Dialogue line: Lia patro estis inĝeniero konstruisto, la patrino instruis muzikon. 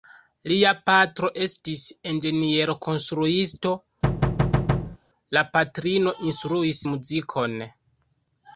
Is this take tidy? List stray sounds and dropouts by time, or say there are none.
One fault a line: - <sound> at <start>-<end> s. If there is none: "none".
- thud at 4.0-5.0 s